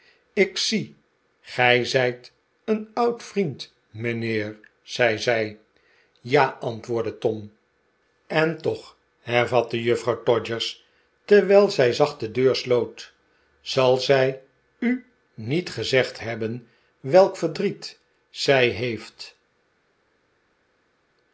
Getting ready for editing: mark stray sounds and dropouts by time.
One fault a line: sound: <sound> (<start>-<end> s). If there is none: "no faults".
no faults